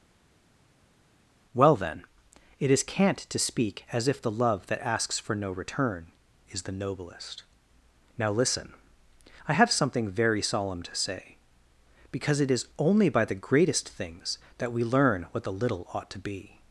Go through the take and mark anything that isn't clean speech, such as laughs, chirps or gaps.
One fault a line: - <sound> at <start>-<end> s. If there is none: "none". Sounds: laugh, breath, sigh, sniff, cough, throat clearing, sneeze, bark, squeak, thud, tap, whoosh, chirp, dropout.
none